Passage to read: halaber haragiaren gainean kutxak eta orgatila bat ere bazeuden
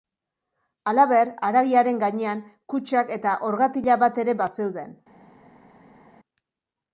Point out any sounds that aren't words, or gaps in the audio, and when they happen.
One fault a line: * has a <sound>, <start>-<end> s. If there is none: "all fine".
all fine